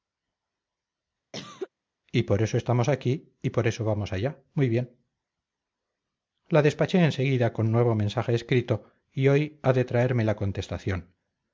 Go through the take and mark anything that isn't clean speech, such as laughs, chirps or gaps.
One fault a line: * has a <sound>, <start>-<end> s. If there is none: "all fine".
* has a cough, 1.3-1.7 s